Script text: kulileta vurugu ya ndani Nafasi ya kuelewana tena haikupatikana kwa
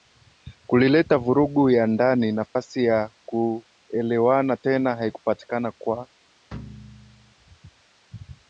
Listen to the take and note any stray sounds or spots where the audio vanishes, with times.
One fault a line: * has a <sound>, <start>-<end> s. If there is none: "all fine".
* has a dropout, 2.5-2.6 s
* has a thud, 6.5-7.3 s